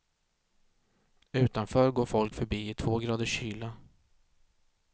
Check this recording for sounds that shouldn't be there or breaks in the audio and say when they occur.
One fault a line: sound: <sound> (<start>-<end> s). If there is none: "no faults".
no faults